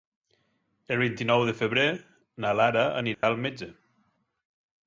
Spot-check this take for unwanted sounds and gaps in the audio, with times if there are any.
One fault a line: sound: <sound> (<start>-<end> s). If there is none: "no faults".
sound: dropout (3.1-3.2 s)